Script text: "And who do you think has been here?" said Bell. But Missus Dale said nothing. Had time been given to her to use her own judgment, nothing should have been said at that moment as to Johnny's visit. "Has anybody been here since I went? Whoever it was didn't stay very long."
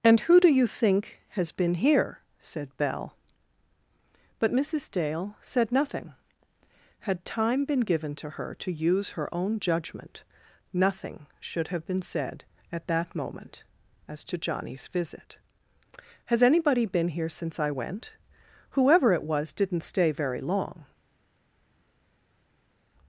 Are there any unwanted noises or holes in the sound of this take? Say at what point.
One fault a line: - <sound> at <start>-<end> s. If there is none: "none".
none